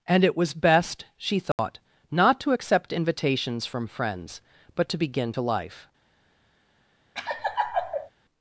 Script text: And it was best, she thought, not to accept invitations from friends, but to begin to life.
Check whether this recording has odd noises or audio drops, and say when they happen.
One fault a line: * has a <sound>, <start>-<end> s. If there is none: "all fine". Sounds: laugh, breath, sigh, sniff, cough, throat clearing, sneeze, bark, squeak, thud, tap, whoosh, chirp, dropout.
* has a dropout, 1.5-1.6 s
* has a laugh, 7.1-8.1 s